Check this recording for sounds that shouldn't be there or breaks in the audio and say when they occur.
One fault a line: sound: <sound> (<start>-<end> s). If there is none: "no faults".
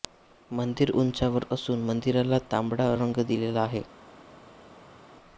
no faults